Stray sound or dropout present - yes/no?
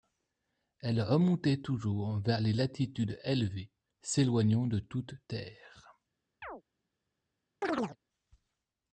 yes